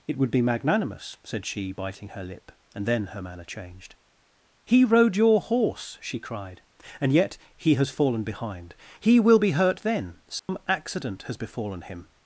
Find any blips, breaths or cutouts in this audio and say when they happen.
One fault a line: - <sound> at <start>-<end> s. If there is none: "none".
- dropout at 10.4-10.5 s